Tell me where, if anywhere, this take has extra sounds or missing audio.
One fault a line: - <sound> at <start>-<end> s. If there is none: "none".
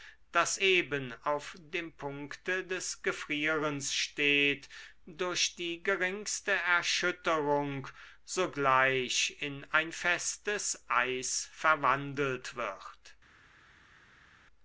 none